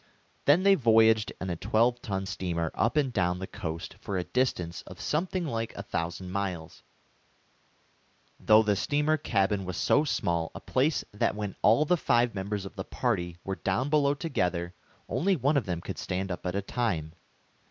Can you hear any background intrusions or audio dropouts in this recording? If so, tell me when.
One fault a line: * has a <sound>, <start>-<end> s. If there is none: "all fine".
all fine